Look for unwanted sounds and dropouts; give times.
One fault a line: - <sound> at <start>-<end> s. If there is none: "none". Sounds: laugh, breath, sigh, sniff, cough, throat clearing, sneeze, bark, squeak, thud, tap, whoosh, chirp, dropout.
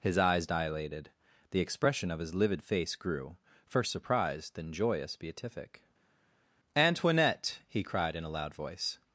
none